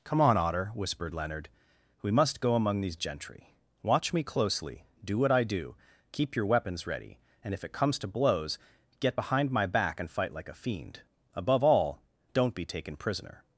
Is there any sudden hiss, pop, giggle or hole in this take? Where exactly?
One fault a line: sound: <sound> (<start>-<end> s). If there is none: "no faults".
no faults